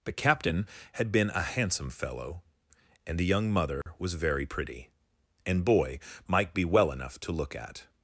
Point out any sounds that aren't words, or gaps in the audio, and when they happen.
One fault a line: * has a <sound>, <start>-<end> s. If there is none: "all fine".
* has a dropout, 3.8-3.9 s